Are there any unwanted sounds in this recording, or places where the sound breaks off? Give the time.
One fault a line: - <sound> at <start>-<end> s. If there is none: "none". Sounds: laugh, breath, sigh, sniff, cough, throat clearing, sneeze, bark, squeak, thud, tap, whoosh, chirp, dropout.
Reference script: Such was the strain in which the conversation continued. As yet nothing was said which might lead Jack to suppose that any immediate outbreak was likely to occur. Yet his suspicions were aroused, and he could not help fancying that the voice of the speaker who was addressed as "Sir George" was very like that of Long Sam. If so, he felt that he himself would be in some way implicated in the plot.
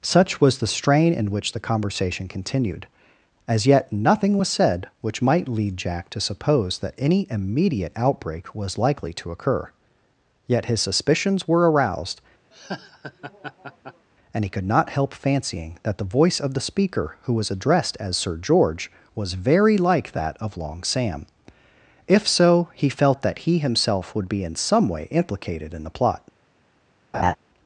- laugh at 12.5-14.1 s
- laugh at 27.1-27.4 s